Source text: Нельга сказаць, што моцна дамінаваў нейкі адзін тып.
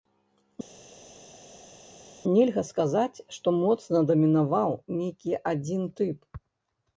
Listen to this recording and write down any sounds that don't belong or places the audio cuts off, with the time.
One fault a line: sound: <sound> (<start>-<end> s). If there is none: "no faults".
no faults